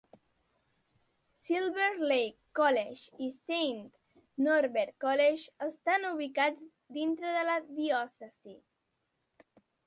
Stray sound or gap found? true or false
false